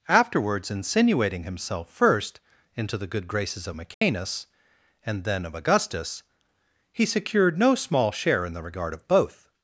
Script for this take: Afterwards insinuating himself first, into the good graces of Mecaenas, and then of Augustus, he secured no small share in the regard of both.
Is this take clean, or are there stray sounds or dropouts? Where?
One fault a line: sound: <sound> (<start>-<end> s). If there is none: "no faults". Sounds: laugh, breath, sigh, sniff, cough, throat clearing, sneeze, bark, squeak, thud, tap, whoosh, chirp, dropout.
sound: dropout (3.9-4.0 s)